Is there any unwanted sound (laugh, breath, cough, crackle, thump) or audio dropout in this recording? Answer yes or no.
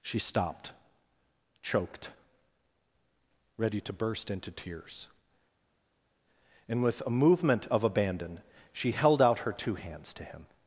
no